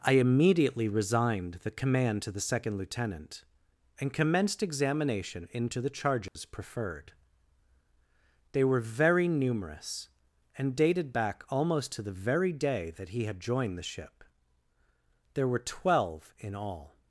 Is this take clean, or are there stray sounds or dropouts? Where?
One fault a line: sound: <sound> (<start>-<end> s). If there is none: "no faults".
sound: dropout (6.3-6.4 s)